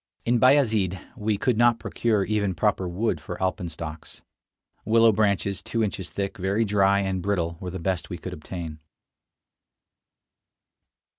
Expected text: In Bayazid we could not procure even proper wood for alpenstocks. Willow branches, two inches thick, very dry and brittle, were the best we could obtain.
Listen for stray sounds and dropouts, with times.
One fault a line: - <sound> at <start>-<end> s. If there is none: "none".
none